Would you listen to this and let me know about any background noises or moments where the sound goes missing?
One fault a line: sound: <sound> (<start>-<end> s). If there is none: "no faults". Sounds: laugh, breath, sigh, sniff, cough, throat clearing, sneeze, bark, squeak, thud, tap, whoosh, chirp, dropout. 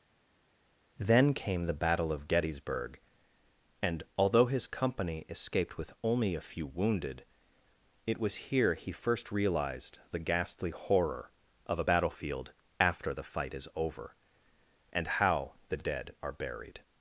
no faults